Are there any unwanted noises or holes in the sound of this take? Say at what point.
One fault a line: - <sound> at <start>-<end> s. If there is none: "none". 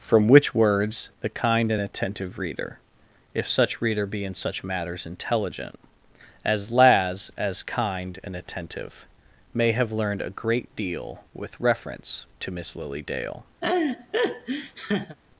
- laugh at 13.6-15.2 s